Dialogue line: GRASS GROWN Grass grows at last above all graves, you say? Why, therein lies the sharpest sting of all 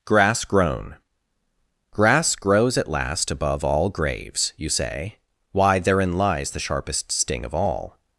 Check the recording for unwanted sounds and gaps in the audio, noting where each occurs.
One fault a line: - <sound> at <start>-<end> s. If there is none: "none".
none